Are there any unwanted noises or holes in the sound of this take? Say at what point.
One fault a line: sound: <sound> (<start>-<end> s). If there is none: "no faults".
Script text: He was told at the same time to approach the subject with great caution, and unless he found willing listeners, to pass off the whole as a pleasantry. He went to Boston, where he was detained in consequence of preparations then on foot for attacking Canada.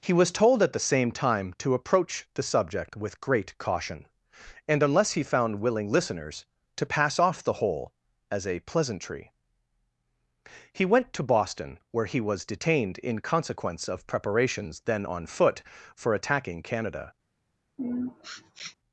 sound: sniff (17.8-18.8 s)